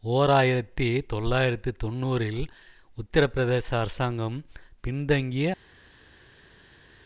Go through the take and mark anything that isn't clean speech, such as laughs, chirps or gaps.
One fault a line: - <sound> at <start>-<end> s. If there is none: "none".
none